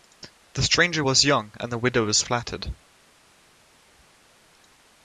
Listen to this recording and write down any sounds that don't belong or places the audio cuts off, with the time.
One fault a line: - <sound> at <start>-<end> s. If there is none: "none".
none